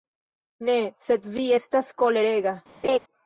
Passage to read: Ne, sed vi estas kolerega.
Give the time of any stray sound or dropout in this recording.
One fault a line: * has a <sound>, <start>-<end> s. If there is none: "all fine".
* has a laugh, 2.8-3.0 s